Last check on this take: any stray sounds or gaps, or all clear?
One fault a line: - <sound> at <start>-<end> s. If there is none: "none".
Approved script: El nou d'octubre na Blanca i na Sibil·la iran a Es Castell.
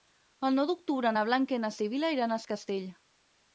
none